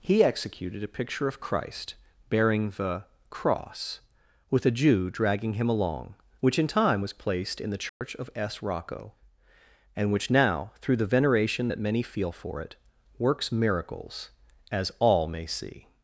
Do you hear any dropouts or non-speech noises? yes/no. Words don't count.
yes